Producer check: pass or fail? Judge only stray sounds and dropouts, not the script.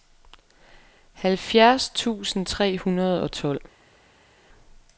pass